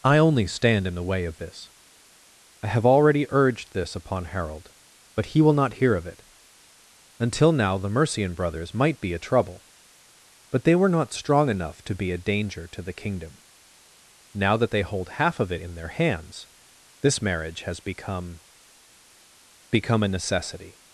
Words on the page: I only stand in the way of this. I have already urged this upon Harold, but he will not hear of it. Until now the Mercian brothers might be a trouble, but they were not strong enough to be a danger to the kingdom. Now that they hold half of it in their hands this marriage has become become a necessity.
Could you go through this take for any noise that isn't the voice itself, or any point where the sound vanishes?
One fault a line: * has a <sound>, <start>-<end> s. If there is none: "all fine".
all fine